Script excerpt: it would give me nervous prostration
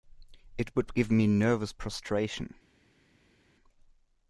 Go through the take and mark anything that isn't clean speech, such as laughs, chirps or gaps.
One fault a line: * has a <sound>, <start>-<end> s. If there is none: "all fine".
all fine